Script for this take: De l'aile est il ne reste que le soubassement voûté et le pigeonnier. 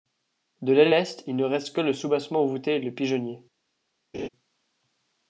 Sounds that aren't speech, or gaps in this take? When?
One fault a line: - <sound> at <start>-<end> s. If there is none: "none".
- laugh at 4.1-4.3 s